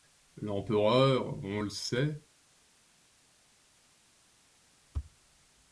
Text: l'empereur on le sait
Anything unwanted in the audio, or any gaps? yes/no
no